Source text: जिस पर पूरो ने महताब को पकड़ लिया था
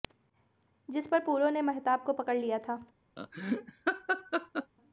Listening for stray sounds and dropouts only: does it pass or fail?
fail